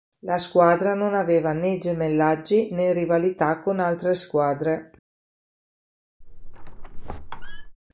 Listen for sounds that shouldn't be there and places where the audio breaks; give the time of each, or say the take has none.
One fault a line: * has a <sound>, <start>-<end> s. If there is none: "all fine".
* has a squeak, 6.2-7.8 s